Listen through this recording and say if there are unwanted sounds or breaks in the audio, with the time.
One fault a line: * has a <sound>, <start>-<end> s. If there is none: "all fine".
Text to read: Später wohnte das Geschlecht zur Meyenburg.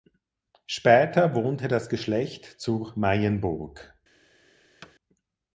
* has a thud, 4.8-4.9 s